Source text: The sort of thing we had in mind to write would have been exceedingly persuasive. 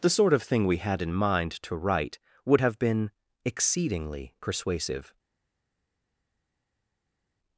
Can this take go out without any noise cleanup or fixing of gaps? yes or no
yes